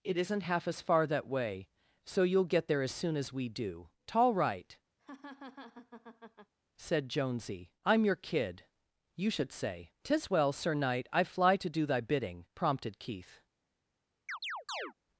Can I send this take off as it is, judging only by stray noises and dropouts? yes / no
no